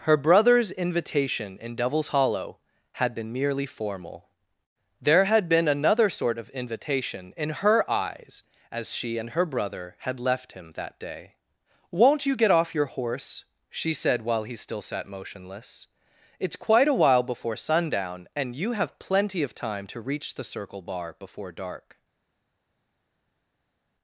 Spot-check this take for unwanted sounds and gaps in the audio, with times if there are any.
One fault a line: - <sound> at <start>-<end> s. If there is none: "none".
none